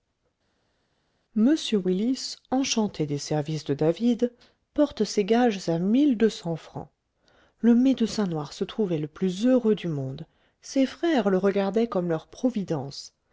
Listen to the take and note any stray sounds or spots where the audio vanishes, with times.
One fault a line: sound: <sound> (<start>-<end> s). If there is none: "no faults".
no faults